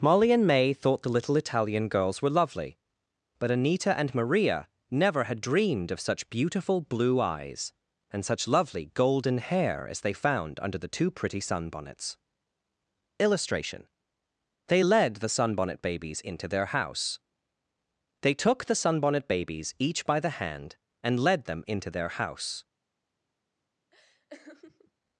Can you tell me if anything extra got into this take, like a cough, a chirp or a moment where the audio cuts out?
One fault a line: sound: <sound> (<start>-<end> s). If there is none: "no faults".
sound: laugh (23.9-24.9 s)